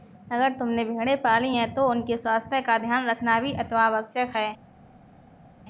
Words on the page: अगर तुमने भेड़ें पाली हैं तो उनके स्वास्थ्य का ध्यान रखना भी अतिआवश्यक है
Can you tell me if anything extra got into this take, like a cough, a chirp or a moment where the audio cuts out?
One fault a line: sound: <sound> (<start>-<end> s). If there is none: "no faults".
no faults